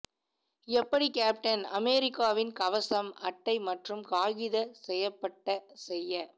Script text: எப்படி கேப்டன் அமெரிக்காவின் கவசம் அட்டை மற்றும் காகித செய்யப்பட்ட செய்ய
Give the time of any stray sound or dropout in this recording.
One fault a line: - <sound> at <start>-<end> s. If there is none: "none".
none